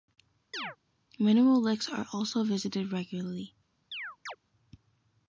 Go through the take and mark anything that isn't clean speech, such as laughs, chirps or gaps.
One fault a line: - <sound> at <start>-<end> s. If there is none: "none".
- chirp at 0.5-0.8 s
- chirp at 3.9-4.4 s